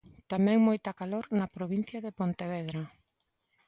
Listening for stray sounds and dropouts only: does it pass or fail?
pass